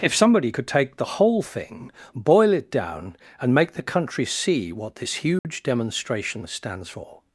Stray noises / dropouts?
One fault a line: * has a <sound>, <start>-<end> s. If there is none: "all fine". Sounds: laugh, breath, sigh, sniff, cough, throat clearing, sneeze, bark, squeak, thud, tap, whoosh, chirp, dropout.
* has a dropout, 5.4-5.4 s